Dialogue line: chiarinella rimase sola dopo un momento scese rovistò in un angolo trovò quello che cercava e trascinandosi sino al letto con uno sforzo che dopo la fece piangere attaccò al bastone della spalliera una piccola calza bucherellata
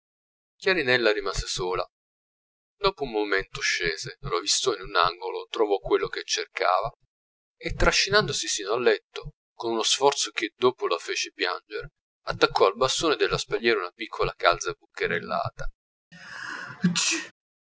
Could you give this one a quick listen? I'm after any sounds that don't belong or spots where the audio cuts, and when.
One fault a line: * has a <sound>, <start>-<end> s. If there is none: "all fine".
* has a sneeze, 16.1-17.3 s